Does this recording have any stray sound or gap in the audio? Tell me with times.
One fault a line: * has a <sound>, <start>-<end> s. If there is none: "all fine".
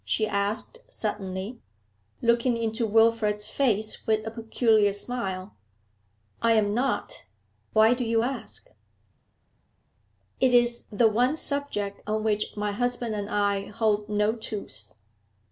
all fine